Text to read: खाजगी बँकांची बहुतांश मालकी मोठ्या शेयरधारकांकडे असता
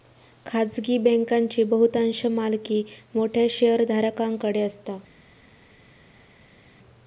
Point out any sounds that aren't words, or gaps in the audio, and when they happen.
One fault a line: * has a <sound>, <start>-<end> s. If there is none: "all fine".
all fine